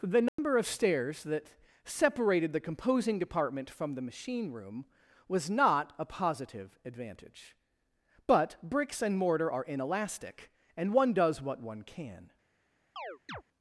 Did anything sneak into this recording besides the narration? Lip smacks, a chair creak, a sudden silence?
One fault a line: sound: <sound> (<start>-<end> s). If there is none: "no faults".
sound: dropout (0.3-0.4 s)
sound: chirp (13.0-13.4 s)